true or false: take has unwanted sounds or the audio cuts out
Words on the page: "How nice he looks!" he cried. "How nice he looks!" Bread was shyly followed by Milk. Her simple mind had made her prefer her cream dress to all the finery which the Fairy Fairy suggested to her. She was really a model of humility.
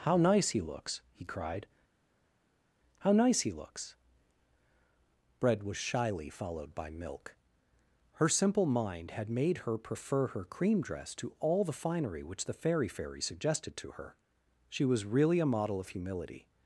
false